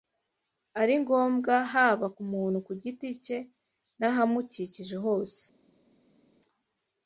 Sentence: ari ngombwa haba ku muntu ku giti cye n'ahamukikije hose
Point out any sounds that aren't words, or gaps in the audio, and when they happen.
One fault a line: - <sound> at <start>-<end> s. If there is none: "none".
none